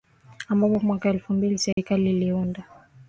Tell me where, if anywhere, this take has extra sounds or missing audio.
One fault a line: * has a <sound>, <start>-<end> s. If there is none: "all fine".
* has a dropout, 1.7-1.8 s